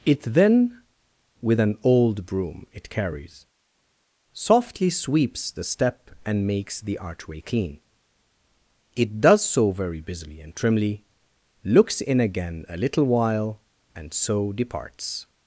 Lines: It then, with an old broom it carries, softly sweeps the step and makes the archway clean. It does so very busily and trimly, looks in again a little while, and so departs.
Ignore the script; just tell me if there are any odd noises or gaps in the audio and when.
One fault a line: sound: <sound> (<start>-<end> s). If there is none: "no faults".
no faults